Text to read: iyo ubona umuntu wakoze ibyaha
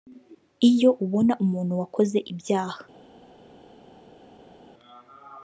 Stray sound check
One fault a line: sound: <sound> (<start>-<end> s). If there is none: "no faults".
no faults